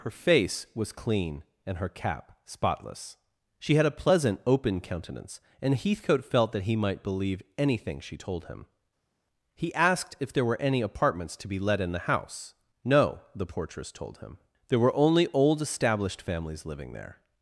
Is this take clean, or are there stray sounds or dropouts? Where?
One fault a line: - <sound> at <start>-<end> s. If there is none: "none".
none